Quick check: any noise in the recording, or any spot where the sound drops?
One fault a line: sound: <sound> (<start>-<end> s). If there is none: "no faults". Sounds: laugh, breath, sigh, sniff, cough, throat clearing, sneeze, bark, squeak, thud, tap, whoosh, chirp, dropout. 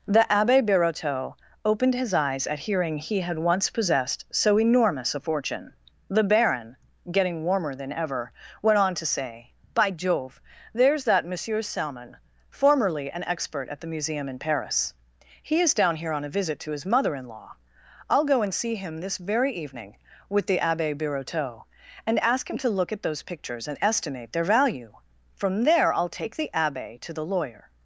no faults